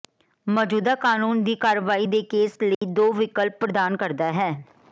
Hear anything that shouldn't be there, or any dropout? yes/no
yes